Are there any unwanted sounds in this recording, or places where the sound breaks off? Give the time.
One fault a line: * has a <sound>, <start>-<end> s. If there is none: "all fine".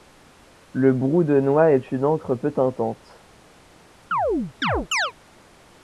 * has a chirp, 4.1-5.1 s